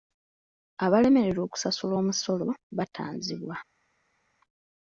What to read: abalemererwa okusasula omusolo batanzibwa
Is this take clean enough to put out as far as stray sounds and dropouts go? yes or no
yes